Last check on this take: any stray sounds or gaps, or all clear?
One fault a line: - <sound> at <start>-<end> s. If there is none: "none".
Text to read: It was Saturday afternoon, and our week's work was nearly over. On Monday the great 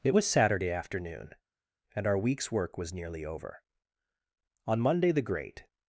none